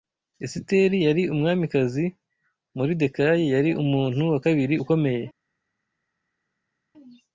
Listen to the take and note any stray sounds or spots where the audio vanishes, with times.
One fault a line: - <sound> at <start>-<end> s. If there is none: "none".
none